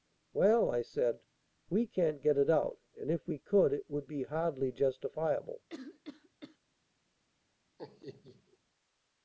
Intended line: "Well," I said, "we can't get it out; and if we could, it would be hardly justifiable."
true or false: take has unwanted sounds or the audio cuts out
true